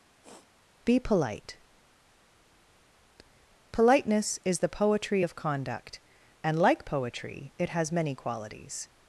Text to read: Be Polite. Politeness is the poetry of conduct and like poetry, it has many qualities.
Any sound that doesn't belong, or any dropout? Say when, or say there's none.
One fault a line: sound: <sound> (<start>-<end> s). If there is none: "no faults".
sound: sniff (0.2-0.5 s)